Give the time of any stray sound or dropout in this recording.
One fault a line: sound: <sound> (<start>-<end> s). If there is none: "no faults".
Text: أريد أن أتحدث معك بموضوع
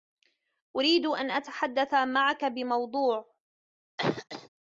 sound: cough (4.0-4.5 s)